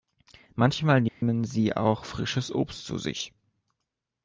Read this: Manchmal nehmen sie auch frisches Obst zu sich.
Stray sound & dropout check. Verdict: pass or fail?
fail